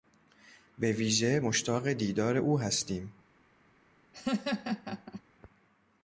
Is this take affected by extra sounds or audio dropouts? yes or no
yes